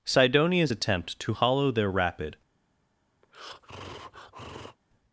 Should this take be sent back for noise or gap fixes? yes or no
yes